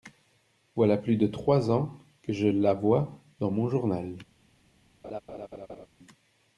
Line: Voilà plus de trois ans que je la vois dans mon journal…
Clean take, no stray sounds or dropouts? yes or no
no